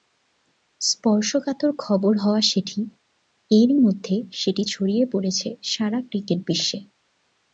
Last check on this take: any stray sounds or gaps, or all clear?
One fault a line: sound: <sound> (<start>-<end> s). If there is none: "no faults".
no faults